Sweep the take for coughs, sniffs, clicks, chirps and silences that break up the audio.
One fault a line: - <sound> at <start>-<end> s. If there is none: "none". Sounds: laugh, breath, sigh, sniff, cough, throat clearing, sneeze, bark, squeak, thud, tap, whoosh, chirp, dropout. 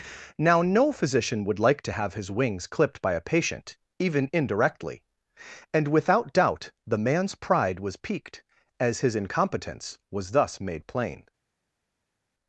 none